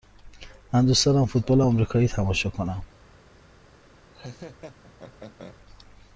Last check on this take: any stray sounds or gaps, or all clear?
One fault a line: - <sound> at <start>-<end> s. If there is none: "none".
- laugh at 4.1-5.6 s